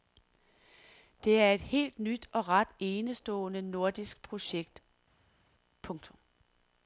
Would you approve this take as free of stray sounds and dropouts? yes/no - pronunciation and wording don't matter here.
yes